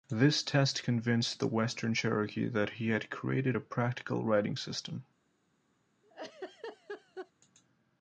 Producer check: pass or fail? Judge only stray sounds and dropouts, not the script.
fail